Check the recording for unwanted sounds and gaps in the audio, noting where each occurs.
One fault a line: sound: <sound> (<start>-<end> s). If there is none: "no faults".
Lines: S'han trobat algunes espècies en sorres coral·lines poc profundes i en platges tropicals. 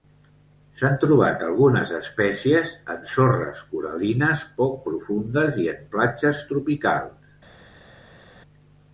no faults